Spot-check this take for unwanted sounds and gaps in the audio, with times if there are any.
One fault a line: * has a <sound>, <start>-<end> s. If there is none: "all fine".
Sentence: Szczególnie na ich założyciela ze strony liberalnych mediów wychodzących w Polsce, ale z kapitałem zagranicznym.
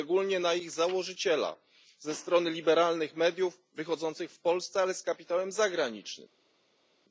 all fine